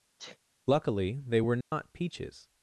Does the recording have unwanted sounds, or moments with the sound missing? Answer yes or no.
yes